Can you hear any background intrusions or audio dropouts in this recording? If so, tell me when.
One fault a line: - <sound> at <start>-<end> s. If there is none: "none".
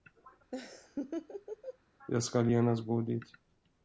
- laugh at 0.5-1.8 s